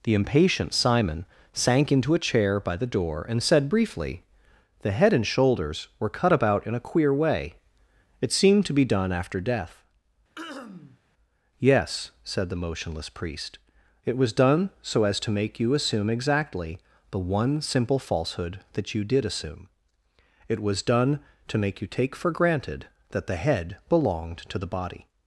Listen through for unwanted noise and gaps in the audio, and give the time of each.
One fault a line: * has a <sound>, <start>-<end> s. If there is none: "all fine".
* has a throat clearing, 10.4-11.0 s